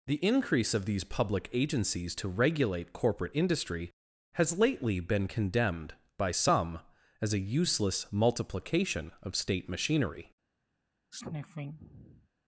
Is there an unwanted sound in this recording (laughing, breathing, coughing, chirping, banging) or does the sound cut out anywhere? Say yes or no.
yes